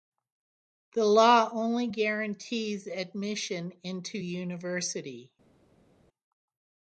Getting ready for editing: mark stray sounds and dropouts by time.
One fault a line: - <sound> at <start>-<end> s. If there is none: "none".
none